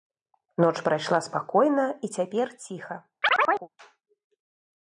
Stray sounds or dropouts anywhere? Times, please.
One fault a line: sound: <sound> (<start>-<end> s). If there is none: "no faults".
sound: chirp (3.2-3.7 s)